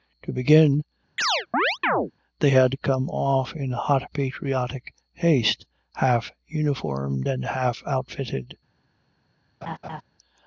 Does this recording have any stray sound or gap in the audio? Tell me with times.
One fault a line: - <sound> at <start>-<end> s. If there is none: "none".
- chirp at 1.2-2.1 s
- laugh at 9.6-10.0 s